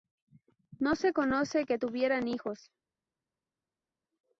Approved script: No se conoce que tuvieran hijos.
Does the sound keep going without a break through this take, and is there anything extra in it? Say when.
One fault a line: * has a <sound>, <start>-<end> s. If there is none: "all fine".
all fine